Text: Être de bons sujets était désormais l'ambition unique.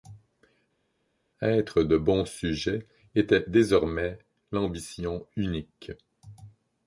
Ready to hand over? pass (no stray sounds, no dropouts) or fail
pass